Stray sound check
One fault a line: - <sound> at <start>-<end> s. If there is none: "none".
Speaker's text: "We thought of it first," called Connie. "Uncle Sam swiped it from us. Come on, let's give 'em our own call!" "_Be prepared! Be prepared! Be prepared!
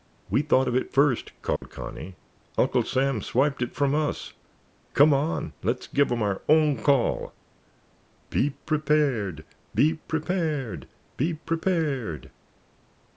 - dropout at 1.6-1.6 s